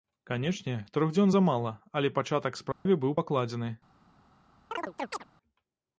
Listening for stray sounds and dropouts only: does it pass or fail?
fail